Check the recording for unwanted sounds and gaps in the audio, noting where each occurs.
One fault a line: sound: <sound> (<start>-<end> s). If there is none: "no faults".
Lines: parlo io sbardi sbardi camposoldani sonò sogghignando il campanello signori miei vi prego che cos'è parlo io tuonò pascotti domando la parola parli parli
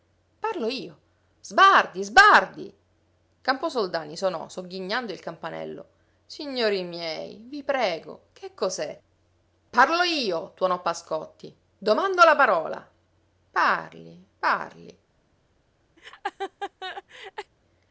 sound: laugh (16.0-17.5 s)